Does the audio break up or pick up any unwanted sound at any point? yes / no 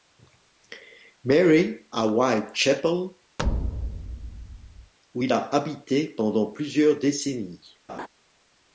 yes